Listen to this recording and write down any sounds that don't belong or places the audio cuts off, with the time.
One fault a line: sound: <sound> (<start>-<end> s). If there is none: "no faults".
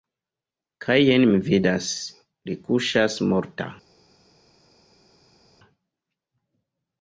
no faults